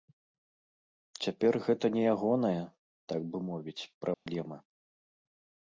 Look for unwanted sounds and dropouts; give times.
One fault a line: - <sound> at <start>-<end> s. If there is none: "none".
- dropout at 4.1-4.3 s